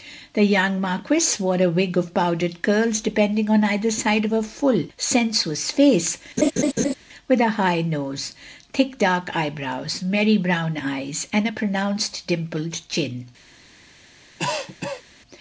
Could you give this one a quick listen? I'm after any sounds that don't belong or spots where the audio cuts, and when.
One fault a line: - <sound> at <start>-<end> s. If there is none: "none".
- laugh at 6.4-6.9 s
- cough at 14.4-15.0 s